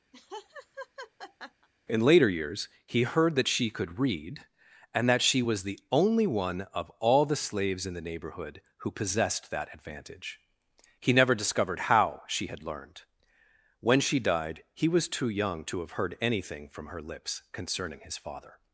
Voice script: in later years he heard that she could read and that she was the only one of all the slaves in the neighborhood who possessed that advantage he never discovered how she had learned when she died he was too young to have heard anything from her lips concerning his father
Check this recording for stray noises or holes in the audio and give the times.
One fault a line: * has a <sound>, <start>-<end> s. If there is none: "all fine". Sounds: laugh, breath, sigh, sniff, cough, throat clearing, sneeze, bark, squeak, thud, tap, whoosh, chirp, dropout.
* has a laugh, 0.1-1.7 s